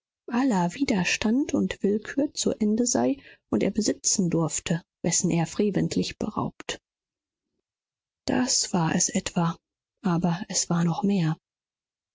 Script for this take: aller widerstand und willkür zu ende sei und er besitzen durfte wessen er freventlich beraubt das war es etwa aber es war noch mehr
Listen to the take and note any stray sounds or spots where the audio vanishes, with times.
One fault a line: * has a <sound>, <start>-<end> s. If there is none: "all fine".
all fine